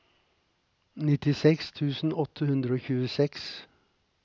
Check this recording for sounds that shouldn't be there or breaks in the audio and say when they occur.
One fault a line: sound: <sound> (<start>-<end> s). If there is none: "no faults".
no faults